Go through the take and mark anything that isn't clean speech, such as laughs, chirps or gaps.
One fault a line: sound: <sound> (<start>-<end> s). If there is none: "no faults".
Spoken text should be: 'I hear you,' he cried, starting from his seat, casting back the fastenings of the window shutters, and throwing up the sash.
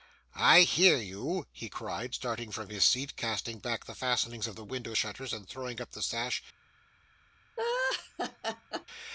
sound: laugh (7.6-8.9 s)